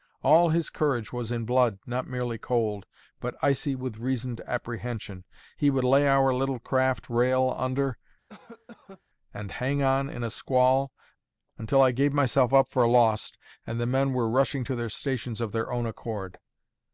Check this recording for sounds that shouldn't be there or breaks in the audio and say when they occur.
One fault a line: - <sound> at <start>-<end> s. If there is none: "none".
- cough at 8.3-9.0 s